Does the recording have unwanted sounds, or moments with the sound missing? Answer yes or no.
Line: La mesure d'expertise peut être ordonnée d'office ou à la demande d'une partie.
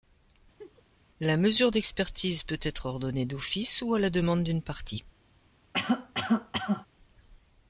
yes